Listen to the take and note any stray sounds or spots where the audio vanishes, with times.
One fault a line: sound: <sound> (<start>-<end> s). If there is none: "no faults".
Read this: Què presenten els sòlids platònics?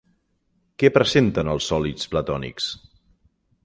no faults